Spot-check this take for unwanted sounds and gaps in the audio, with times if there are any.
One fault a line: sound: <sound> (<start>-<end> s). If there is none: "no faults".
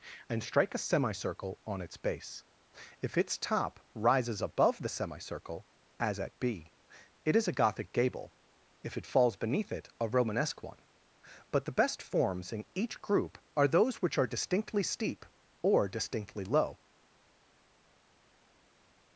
no faults